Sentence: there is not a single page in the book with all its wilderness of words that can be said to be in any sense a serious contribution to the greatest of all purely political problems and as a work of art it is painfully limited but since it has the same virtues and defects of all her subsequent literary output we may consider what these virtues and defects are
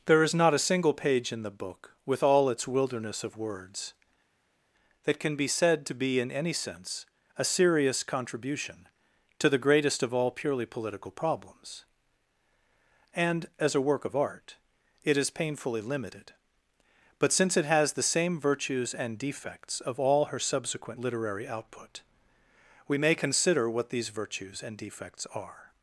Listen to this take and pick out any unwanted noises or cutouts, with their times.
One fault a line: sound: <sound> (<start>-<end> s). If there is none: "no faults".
no faults